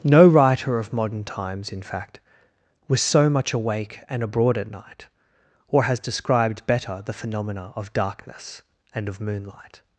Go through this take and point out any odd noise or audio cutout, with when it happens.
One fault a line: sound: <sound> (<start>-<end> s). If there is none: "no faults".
no faults